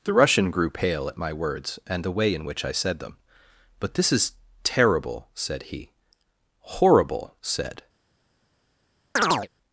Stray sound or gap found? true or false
true